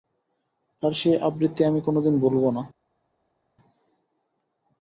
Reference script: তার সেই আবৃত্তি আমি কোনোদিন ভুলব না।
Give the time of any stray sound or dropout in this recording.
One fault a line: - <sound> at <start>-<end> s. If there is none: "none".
none